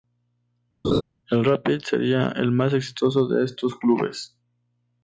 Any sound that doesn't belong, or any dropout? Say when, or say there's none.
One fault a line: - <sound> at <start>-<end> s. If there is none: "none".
- laugh at 0.8-1.0 s